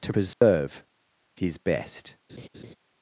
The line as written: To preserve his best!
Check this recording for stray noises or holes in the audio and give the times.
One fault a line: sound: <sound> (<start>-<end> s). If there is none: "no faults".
sound: dropout (0.3-0.4 s)
sound: laugh (2.3-2.8 s)